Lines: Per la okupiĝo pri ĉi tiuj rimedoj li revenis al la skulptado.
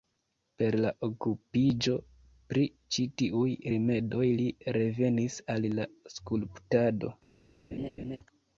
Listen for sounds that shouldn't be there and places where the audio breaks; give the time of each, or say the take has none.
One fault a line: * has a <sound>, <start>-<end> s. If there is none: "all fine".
* has a laugh, 7.7-8.2 s